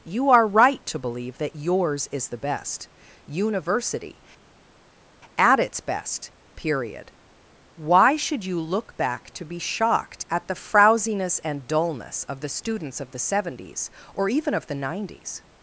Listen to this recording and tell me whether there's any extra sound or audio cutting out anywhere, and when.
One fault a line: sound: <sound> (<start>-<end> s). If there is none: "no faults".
no faults